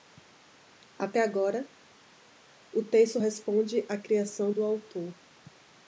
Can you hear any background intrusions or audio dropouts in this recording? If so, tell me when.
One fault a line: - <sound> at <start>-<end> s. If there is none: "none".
none